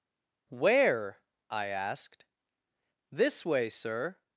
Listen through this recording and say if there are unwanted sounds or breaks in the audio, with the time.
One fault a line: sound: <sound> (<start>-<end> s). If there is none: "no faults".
no faults